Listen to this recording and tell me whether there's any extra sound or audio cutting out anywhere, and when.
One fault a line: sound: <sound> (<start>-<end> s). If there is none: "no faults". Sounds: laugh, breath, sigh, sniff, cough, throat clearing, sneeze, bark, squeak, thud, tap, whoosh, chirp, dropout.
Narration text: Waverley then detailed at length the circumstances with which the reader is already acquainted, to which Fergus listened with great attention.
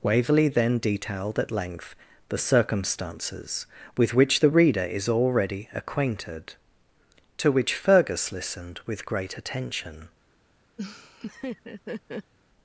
sound: laugh (10.8-12.3 s)